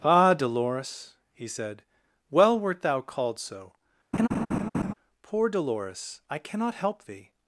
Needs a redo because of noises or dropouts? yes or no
yes